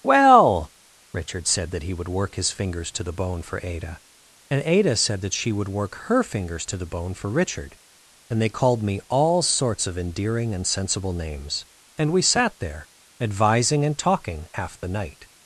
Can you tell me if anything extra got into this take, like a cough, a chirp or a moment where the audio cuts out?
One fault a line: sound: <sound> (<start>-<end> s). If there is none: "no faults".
no faults